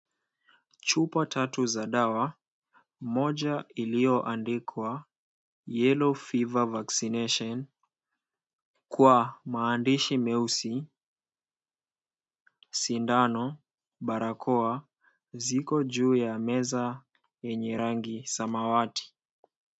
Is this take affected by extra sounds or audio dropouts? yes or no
no